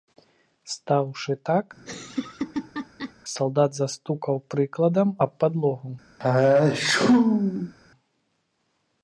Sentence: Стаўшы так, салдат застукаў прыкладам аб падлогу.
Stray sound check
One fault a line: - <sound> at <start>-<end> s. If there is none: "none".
- laugh at 1.8-3.1 s
- sneeze at 6.2-7.7 s